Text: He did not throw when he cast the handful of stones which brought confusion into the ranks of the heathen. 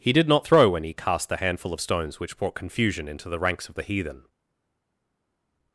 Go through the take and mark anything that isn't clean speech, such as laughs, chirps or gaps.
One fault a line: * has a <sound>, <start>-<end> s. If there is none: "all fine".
all fine